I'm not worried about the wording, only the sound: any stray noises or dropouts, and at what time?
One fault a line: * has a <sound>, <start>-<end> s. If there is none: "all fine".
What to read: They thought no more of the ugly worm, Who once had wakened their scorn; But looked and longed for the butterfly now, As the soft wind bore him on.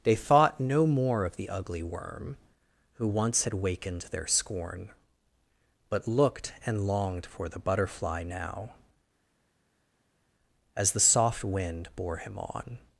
all fine